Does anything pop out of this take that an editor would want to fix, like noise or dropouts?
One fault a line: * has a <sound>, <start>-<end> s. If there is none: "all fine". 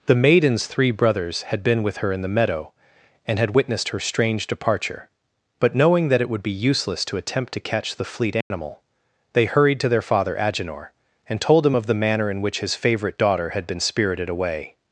* has a dropout, 8.4-8.5 s